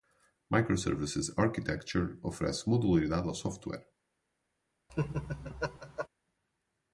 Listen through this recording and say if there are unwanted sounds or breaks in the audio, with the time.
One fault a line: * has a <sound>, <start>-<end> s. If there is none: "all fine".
* has a laugh, 4.9-6.1 s